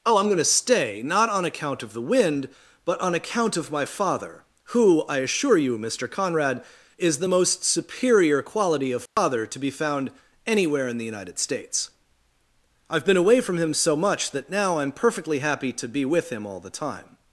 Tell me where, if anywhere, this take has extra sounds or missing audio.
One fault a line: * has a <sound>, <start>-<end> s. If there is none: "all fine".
* has a dropout, 9.1-9.2 s